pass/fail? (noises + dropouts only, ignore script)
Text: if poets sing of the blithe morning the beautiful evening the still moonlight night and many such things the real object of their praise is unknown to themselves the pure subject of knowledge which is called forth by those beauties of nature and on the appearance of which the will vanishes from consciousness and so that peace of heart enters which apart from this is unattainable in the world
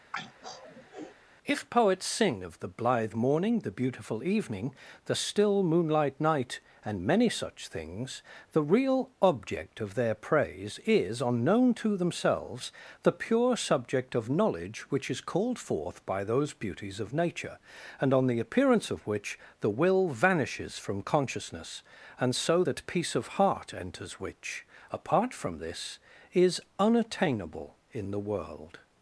fail